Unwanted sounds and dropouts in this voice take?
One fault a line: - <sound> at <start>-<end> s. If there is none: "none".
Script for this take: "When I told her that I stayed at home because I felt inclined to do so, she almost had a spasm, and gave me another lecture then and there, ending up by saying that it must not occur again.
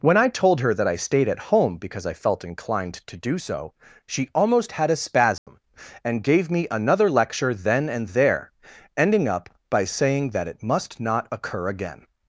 - dropout at 5.4-5.5 s